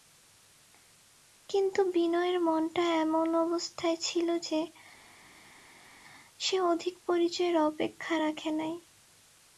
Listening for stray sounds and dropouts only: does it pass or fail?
pass